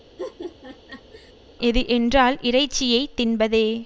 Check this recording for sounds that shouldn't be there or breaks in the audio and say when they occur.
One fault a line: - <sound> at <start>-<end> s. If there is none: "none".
- laugh at 0.2-1.3 s